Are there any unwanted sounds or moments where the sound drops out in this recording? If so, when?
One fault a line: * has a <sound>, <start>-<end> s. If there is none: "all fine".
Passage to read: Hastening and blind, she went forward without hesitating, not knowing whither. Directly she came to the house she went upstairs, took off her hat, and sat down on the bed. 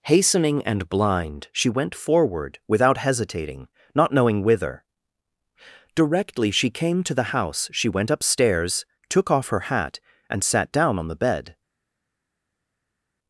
all fine